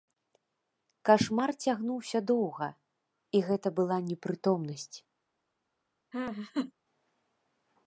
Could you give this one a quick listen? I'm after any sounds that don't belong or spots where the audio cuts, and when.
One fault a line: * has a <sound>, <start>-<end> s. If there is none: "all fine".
* has a laugh, 6.1-6.7 s